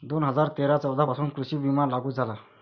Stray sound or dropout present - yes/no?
no